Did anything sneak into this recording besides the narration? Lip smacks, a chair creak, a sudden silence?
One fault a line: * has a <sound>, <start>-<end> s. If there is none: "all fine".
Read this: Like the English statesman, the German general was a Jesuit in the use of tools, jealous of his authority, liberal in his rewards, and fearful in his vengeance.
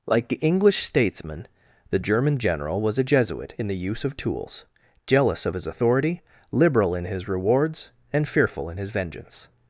all fine